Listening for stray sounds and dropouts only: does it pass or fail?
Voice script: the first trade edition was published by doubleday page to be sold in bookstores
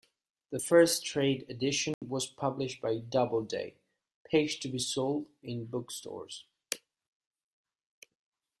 fail